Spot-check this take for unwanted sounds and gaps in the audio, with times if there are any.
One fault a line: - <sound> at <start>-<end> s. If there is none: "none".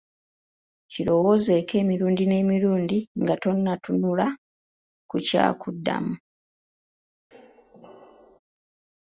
- squeak at 7.3-8.4 s